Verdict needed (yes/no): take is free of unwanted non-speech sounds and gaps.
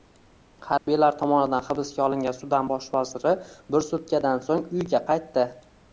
no